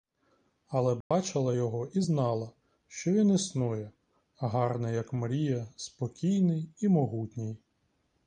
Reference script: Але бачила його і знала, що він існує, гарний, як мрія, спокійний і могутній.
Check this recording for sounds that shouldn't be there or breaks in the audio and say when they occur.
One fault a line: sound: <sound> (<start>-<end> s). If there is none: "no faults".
sound: dropout (1.0-1.1 s)